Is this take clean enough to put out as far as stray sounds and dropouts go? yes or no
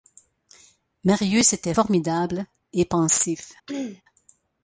no